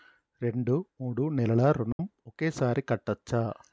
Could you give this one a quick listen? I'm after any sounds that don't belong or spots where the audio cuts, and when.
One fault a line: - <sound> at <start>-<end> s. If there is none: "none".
- dropout at 1.9-2.0 s